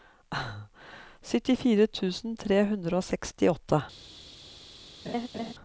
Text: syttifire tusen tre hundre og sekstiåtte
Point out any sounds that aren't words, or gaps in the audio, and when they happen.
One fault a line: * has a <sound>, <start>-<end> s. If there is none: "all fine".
* has a laugh, 5.0-5.5 s